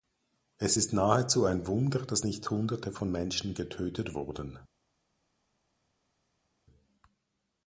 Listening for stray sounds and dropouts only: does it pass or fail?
pass